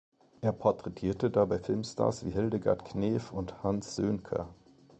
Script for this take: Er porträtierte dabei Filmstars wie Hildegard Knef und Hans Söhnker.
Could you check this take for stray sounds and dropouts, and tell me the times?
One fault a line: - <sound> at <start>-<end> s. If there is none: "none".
none